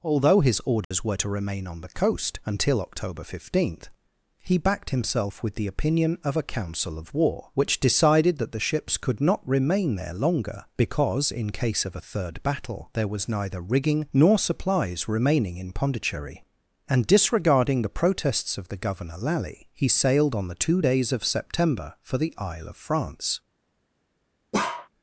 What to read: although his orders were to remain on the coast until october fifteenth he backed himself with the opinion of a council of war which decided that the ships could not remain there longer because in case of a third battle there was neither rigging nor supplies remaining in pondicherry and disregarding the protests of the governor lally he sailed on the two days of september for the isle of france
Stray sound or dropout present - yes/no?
yes